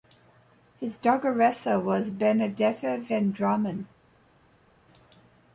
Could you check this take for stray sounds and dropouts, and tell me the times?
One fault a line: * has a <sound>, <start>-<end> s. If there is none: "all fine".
all fine